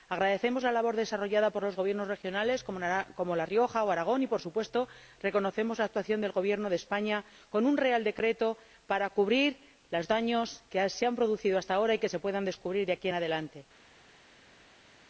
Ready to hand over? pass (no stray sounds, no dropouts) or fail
pass